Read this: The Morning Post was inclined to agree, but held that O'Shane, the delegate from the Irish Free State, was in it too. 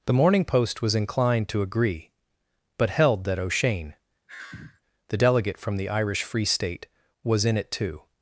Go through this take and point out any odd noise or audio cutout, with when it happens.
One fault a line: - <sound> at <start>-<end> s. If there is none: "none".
- sigh at 4.3-4.8 s